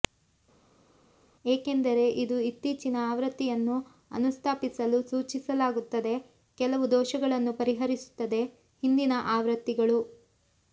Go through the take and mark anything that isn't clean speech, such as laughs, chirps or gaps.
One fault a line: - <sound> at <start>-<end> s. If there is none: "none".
none